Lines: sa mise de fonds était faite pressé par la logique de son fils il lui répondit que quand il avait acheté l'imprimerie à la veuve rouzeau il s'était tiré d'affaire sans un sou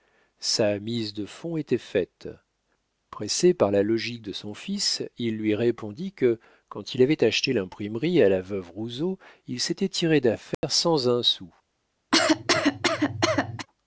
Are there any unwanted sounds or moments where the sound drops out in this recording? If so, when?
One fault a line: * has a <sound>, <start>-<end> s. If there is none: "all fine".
* has a dropout, 10.5-10.6 s
* has a cough, 12.1-13.7 s